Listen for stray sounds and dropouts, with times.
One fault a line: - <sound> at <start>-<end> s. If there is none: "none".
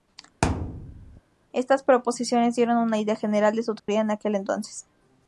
- thud at 0.4-1.2 s
- dropout at 3.8-3.9 s